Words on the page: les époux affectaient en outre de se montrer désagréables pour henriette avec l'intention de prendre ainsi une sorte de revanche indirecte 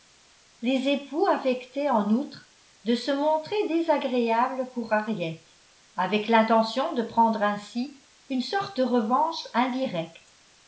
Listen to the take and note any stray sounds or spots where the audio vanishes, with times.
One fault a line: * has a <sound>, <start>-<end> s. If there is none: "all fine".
all fine